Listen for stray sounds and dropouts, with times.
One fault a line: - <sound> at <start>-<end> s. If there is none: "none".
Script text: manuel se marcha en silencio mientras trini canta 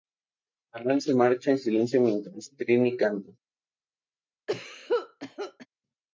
- cough at 4.5-5.7 s